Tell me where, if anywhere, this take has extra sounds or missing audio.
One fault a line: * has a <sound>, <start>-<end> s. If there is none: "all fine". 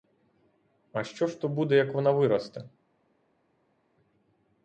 all fine